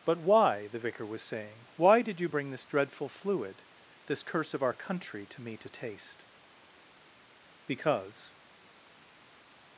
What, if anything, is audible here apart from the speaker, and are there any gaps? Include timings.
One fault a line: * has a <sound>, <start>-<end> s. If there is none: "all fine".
all fine